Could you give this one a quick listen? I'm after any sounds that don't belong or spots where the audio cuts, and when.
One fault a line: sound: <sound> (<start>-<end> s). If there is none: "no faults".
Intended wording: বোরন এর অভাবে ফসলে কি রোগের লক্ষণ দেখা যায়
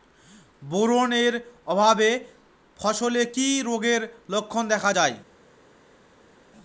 no faults